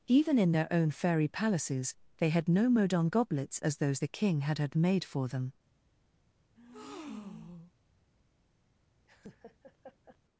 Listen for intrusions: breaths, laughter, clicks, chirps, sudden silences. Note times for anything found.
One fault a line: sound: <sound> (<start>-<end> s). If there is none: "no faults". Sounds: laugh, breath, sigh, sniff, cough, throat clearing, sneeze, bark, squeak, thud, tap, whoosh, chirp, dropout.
sound: breath (6.6-7.7 s)
sound: laugh (9.0-10.2 s)